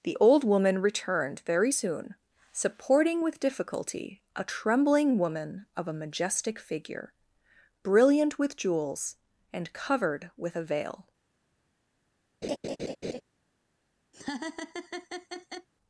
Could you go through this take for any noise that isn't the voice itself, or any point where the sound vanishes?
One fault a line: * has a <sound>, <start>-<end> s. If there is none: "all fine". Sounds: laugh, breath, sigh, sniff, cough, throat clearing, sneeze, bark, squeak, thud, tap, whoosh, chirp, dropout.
* has a laugh, 12.4-13.2 s
* has a laugh, 14.1-15.7 s